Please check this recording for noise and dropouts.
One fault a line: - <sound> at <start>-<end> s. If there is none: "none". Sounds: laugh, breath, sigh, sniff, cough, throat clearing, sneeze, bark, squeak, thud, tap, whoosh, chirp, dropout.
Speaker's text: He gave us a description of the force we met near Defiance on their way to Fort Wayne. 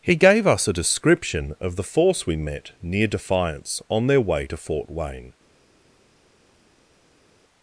none